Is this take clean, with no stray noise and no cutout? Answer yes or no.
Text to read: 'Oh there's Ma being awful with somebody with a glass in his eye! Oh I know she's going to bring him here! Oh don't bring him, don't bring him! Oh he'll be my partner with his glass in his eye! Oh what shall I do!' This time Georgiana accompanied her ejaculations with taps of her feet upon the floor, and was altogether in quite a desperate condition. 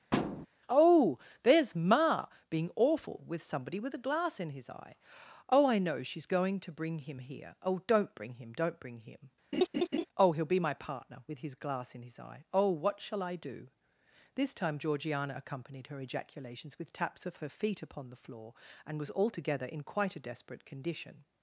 no